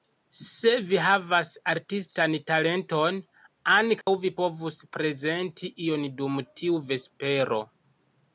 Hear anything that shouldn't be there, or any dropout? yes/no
yes